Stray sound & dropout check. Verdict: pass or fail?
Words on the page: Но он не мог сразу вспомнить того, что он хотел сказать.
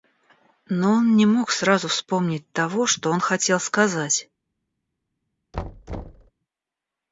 fail